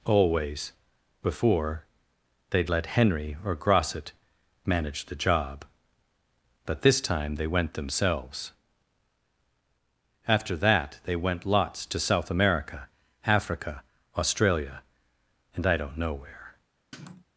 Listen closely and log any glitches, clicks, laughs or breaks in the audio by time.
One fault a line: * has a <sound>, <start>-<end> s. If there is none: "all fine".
* has a sniff, 16.9-17.2 s